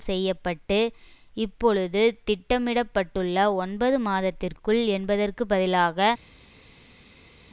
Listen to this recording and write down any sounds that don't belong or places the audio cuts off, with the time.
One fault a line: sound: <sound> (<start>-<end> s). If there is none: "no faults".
no faults